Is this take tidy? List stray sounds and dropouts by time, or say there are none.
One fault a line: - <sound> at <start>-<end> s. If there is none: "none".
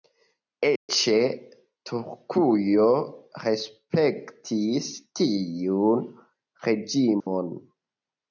- dropout at 0.8-0.9 s
- dropout at 7.2-7.3 s